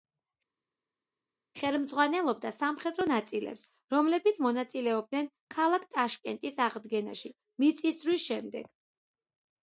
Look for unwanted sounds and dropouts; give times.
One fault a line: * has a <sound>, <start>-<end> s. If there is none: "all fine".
all fine